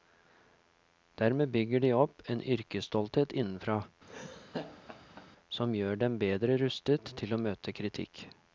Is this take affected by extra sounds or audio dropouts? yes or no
yes